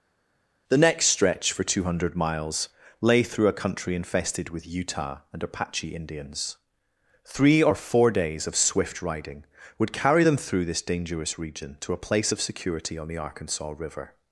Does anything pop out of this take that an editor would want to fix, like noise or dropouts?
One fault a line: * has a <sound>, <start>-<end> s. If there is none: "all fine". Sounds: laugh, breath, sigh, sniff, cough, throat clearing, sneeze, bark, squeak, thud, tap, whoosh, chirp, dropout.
all fine